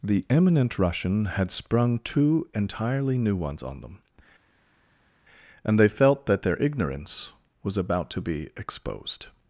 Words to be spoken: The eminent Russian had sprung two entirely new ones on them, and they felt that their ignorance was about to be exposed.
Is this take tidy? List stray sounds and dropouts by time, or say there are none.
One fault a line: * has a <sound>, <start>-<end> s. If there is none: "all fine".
all fine